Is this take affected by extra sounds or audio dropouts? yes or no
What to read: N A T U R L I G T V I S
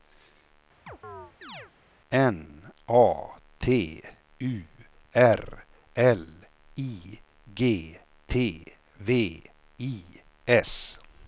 yes